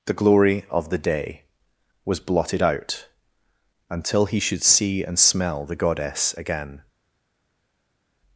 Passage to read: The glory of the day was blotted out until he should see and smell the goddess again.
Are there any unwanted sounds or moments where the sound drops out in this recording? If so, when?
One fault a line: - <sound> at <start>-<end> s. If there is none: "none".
none